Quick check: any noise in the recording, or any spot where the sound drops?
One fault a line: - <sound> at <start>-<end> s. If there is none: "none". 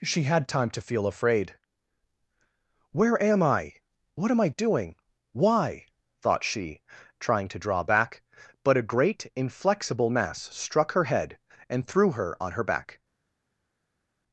none